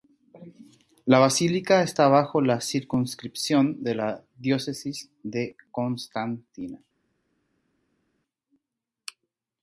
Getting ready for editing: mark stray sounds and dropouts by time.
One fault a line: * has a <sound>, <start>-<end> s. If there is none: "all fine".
all fine